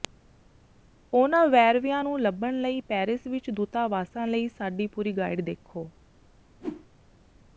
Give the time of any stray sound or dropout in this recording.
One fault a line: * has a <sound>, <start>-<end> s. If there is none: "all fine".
* has a whoosh, 6.6-6.9 s